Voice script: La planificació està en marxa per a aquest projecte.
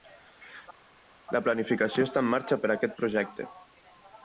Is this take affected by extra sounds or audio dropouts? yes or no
no